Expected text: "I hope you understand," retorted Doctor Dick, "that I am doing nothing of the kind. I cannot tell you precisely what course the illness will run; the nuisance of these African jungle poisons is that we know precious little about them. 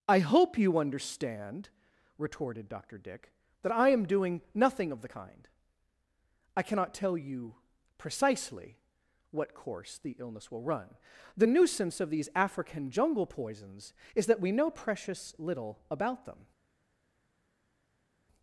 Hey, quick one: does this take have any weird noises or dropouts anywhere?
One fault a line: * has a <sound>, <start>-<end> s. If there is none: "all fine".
all fine